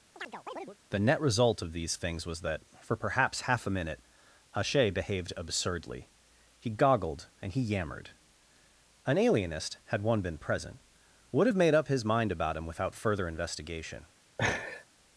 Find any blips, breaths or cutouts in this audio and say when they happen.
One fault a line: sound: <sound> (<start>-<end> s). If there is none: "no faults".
sound: chirp (0.2-0.8 s)
sound: laugh (14.4-14.9 s)